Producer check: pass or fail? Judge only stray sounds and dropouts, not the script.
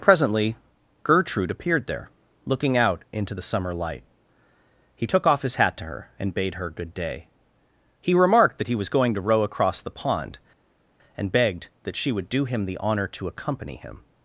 pass